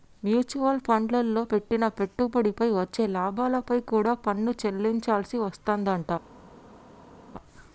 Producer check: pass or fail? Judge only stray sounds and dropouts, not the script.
pass